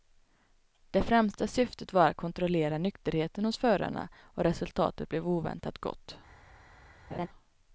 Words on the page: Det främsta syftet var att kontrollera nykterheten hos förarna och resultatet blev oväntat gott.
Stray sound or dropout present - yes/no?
yes